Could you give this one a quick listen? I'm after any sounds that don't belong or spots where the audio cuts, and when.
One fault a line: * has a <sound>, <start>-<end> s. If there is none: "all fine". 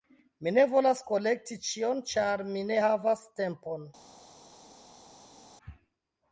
all fine